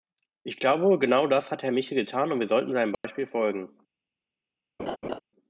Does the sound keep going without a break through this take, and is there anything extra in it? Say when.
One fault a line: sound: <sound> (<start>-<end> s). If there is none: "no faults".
sound: dropout (2.9-3.0 s)
sound: laugh (4.8-5.2 s)